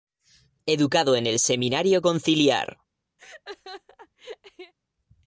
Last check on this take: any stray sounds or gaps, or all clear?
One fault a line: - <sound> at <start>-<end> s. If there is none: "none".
- laugh at 3.2-4.7 s